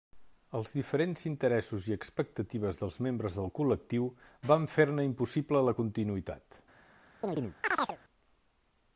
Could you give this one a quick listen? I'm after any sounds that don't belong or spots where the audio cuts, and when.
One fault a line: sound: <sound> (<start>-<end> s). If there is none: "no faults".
sound: chirp (7.2-8.0 s)